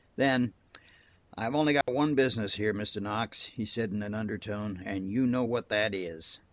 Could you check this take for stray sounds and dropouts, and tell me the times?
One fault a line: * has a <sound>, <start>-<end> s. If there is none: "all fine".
* has a dropout, 1.8-1.9 s